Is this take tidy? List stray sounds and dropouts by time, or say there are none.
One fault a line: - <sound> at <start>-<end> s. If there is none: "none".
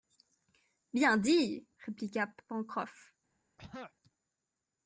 - throat clearing at 3.6-3.9 s